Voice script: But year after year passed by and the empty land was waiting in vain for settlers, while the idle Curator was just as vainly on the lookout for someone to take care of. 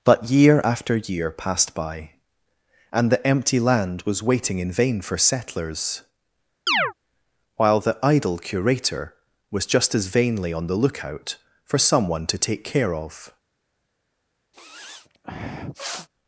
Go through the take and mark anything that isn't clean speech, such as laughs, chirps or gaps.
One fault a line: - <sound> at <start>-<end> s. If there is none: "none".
- chirp at 6.7-6.9 s
- sniff at 14.5-16.1 s